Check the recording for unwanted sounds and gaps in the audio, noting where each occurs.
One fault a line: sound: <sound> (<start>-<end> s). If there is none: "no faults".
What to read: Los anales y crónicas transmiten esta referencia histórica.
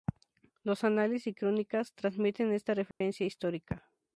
sound: dropout (2.9-3.0 s)